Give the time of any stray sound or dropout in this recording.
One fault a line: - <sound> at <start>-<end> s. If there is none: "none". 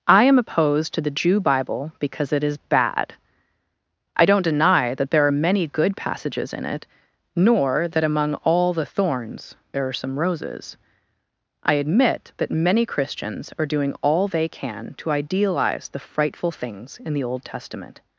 none